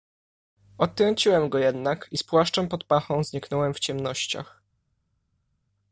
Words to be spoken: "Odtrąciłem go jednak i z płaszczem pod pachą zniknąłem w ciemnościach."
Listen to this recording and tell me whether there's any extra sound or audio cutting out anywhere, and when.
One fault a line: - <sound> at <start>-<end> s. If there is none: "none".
none